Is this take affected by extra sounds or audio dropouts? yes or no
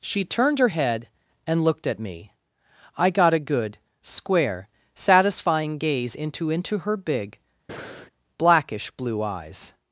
yes